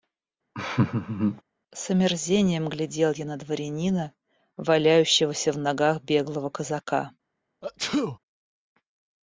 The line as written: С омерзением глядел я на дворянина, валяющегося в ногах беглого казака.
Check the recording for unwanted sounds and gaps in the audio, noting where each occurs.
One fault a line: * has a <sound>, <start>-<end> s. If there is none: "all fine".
* has a laugh, 0.5-1.4 s
* has a sneeze, 7.6-8.2 s